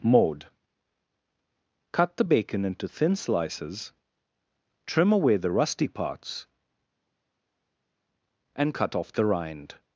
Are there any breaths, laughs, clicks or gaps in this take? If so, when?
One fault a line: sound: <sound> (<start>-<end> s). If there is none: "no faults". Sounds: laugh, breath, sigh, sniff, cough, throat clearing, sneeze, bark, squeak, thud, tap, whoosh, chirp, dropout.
no faults